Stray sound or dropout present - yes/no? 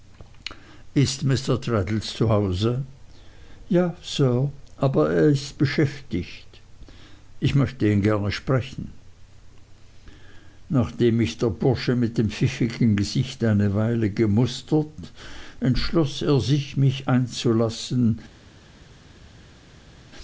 no